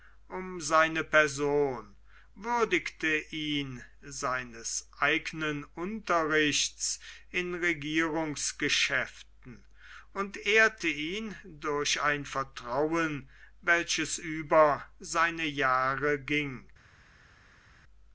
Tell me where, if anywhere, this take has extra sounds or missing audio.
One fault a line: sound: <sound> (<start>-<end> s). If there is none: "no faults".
no faults